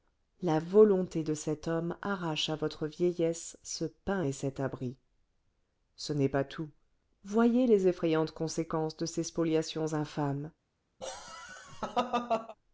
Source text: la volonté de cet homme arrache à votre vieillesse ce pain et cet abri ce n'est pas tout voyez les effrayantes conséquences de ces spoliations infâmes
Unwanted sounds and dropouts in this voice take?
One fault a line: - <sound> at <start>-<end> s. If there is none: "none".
- laugh at 11.0-12.6 s